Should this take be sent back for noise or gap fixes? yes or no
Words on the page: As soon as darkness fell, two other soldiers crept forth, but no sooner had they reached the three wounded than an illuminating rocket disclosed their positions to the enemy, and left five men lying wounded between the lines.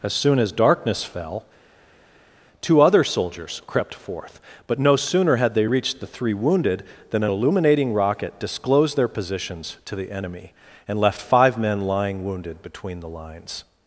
no